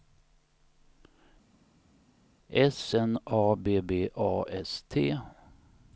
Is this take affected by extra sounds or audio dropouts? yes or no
no